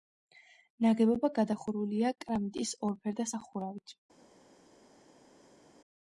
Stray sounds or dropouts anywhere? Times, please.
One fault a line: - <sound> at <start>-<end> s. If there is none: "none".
none